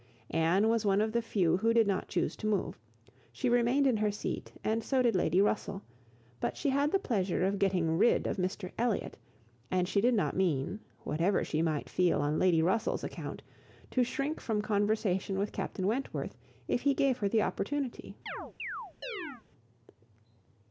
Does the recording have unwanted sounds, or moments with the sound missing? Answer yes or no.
yes